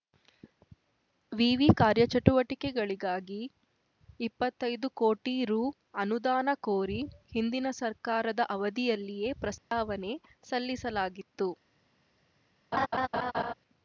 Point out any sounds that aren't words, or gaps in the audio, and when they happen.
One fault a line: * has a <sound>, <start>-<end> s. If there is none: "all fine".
* has a dropout, 9.6-9.7 s
* has a laugh, 12.7-13.5 s